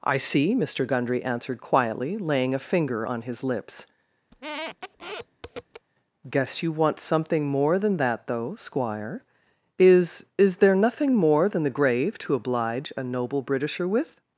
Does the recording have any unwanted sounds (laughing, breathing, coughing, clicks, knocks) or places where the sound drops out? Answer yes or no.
yes